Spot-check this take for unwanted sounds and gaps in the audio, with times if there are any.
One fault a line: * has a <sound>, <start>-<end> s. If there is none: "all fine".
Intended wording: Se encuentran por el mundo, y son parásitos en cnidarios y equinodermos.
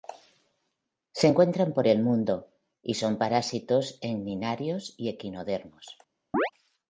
* has a chirp, 6.3-6.5 s